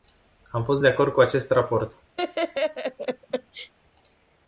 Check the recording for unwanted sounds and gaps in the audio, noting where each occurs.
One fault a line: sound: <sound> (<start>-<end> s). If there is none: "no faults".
sound: laugh (2.2-3.7 s)